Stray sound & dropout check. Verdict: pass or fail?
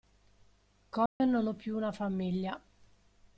fail